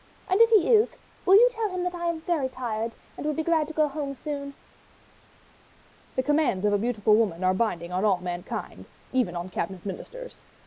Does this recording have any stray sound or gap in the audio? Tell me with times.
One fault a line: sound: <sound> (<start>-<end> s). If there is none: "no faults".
no faults